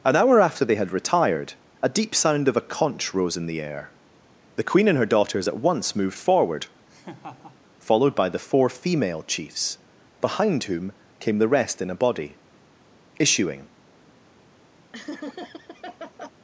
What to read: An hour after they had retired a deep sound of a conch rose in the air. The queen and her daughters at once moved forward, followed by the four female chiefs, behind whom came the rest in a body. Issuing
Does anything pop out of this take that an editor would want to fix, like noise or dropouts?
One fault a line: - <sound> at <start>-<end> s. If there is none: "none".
- laugh at 6.9-7.6 s
- laugh at 14.9-16.3 s